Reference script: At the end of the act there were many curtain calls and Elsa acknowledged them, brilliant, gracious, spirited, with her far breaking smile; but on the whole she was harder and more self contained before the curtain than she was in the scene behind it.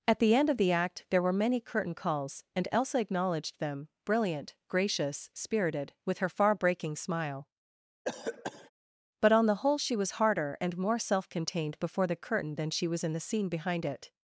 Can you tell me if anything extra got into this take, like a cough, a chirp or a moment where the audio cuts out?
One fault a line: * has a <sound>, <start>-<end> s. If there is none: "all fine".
* has a cough, 8.0-8.7 s